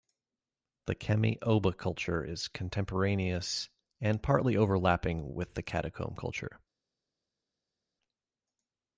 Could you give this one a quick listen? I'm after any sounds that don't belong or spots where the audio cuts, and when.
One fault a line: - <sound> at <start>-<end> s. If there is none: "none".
none